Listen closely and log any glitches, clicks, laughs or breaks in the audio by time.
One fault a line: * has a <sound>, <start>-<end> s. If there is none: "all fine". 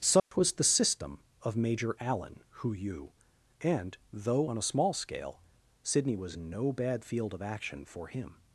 * has a dropout, 0.2-0.3 s